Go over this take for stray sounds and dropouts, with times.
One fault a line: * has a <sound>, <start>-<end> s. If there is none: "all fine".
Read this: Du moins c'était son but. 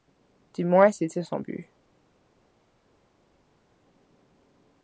all fine